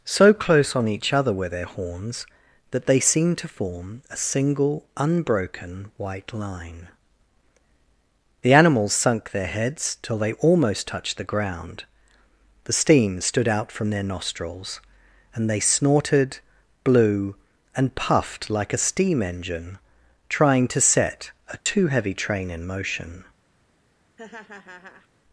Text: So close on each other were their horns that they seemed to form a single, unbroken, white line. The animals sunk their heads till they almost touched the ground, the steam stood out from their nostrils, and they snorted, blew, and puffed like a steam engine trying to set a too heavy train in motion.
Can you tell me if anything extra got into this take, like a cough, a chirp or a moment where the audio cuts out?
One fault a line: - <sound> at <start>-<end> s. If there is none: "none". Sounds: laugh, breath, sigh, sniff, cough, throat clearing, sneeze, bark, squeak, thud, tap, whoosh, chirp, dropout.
- dropout at 21.6-21.7 s
- laugh at 24.2-25.1 s